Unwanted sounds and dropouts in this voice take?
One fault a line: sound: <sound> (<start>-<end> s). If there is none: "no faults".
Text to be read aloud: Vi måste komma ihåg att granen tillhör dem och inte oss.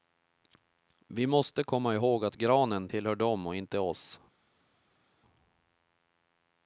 no faults